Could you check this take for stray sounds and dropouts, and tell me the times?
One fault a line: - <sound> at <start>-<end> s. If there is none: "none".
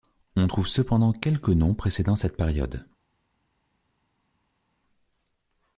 none